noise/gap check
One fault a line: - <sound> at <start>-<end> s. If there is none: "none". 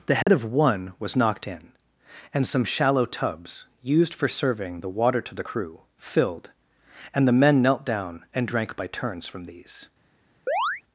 - dropout at 0.2-0.3 s
- chirp at 10.5-10.8 s